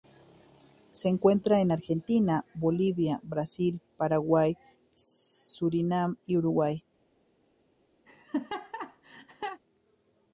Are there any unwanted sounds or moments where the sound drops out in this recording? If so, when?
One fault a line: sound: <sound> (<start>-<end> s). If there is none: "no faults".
sound: laugh (8.1-9.6 s)